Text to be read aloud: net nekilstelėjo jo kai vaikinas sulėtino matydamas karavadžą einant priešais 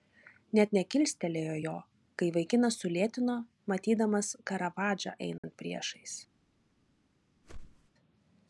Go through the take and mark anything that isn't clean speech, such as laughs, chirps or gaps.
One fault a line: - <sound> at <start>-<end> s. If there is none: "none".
- dropout at 5.4-5.4 s
- whoosh at 7.4-7.9 s